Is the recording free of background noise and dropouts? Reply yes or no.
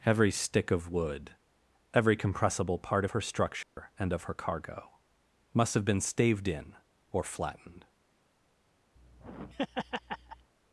no